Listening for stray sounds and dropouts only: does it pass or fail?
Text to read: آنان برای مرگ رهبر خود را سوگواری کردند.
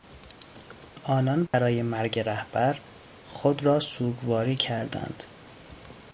fail